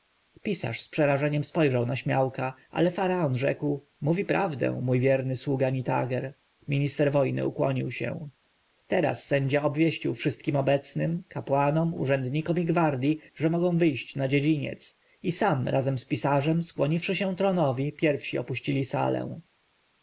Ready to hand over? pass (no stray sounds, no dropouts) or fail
pass